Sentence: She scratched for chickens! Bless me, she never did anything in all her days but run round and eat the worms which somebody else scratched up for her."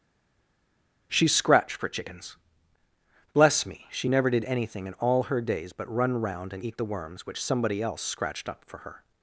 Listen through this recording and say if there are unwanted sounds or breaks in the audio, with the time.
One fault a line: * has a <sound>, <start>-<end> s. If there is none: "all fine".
all fine